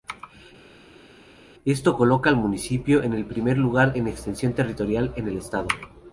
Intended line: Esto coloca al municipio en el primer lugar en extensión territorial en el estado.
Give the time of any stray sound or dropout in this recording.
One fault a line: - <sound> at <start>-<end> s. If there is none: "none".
none